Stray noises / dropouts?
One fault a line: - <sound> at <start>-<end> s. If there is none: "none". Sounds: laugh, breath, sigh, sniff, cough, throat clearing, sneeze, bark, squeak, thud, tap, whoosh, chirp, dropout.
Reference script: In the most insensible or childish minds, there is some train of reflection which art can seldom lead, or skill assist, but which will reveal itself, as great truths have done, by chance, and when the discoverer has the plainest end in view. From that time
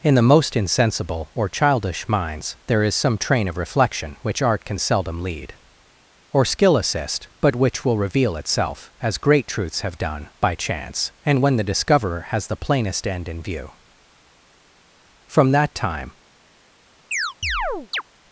- chirp at 17.1-18.0 s